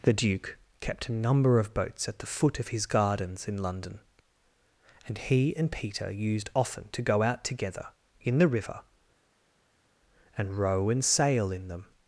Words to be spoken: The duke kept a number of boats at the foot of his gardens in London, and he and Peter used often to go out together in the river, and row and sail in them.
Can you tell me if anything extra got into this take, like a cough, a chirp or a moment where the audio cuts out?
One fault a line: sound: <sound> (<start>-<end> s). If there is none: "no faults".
no faults